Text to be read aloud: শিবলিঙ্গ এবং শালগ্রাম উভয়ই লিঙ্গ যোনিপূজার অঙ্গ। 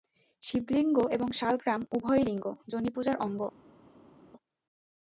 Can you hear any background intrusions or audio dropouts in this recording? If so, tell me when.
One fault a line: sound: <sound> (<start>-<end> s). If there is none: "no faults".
no faults